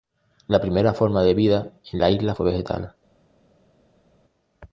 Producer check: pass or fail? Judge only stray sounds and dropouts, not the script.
pass